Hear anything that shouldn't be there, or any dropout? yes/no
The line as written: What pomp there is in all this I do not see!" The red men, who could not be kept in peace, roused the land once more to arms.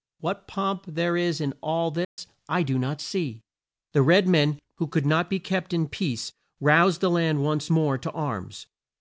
yes